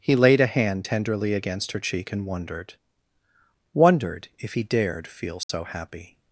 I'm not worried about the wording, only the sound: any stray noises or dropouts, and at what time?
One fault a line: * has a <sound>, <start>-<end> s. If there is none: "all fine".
* has a dropout, 5.4-5.5 s